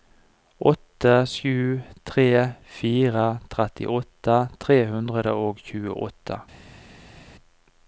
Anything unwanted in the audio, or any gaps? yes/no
no